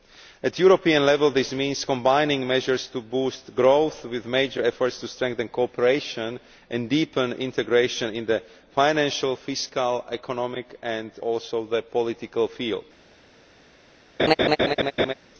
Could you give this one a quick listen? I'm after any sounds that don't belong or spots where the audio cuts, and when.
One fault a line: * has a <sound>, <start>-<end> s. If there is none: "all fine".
* has a laugh, 14.2-15.1 s